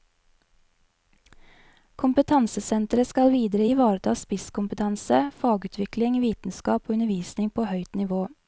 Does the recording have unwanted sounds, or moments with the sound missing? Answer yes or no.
no